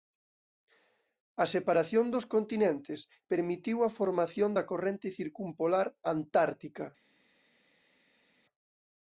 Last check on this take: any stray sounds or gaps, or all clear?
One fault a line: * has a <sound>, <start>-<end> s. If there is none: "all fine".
all fine